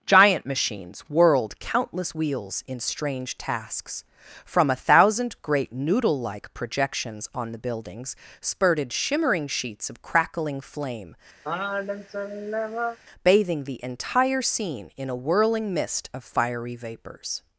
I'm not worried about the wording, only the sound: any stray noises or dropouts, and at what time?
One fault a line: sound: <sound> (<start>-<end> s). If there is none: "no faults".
sound: sigh (11.4-13.0 s)